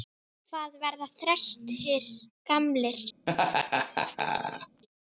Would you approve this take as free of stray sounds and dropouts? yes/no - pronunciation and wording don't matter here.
no